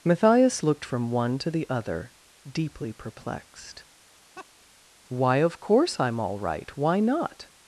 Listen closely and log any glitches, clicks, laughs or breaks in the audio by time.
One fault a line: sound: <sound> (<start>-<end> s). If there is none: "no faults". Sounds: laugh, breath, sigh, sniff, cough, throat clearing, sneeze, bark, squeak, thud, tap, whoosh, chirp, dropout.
sound: laugh (4.4-4.5 s)